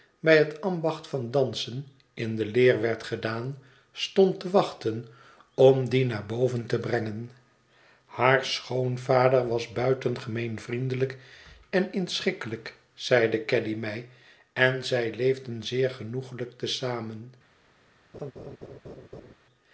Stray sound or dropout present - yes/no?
yes